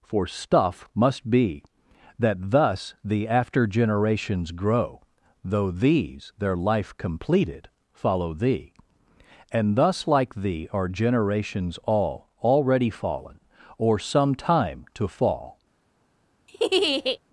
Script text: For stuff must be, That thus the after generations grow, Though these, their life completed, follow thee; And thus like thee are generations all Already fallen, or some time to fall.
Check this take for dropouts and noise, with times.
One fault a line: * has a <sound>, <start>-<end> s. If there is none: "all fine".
* has a laugh, 16.5-17.2 s